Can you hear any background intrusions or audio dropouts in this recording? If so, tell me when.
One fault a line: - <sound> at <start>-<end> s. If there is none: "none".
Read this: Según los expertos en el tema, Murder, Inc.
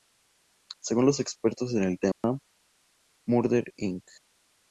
- dropout at 2.1-2.2 s